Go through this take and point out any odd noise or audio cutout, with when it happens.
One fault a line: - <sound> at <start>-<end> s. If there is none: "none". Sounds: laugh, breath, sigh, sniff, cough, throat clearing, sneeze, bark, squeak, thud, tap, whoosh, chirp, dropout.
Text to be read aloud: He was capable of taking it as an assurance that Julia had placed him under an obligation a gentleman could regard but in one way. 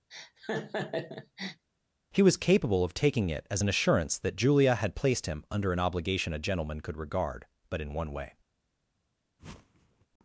- laugh at 0.1-1.6 s
- whoosh at 9.4-10.1 s